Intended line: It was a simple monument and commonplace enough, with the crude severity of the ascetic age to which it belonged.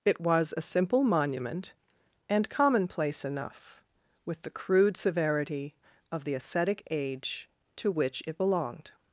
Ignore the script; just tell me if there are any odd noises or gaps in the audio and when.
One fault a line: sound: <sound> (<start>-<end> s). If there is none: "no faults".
no faults